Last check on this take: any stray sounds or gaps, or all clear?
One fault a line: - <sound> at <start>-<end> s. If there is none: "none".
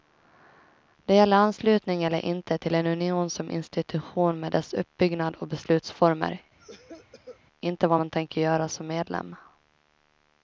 - cough at 6.6-7.4 s